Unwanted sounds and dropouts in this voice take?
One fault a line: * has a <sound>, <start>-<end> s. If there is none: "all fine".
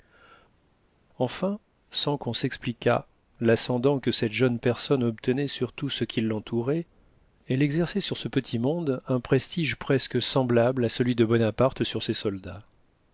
all fine